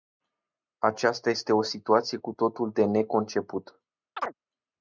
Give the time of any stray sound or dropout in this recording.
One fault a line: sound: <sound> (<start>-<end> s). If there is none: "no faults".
sound: chirp (4.2-4.3 s)